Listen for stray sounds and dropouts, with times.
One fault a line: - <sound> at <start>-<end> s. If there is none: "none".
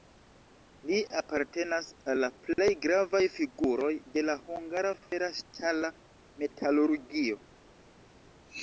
none